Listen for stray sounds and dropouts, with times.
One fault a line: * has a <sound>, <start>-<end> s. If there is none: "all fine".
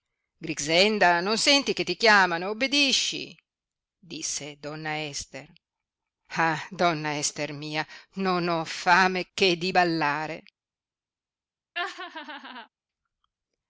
* has a laugh, 11.7-12.7 s